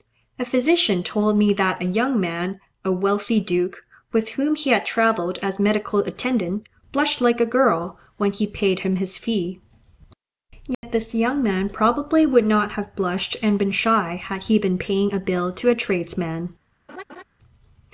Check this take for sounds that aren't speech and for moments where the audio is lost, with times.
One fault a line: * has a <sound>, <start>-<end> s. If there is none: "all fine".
* has a dropout, 10.7-10.8 s
* has a laugh, 16.9-17.2 s